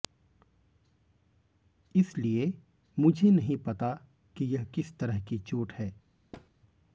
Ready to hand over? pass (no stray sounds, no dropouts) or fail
fail